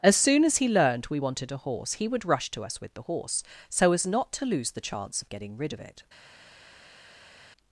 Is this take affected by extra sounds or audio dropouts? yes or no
no